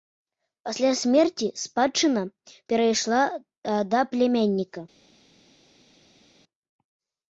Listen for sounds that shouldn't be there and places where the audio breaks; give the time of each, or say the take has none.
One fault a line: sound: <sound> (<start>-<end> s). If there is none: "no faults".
no faults